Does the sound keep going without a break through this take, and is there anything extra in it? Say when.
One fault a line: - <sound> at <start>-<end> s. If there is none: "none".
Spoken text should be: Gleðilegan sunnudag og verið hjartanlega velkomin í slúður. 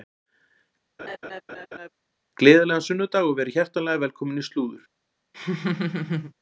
- laugh at 1.0-1.9 s
- laugh at 5.3-6.3 s